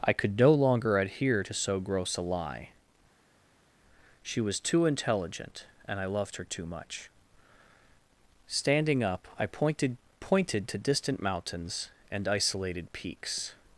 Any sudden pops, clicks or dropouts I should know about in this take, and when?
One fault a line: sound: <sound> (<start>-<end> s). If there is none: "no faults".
no faults